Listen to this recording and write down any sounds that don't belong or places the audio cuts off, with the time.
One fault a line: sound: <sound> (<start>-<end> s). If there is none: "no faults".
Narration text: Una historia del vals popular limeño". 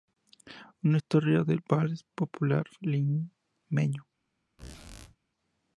sound: squeak (4.6-5.2 s)